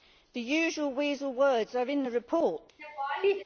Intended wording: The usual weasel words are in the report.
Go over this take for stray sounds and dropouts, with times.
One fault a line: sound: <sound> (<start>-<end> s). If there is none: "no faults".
sound: laugh (2.8-3.4 s)